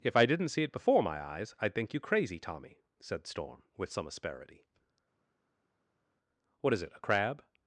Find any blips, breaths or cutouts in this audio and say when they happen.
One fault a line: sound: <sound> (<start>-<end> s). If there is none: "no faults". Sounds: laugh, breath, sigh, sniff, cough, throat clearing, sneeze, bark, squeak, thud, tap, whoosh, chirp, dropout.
no faults